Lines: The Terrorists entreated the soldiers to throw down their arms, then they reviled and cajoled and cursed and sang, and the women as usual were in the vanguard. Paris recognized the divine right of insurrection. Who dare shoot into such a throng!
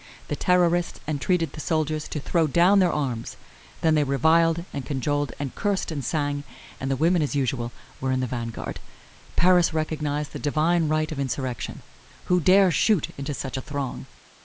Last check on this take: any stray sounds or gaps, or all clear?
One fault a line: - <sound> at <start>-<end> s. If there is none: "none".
none